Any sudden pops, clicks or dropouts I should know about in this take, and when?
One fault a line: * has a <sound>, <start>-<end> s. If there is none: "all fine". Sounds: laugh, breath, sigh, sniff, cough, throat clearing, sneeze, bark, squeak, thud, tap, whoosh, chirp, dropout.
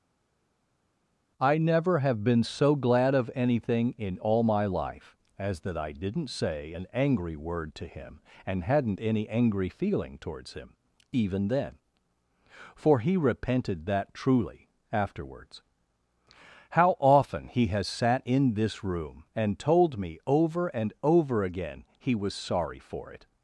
all fine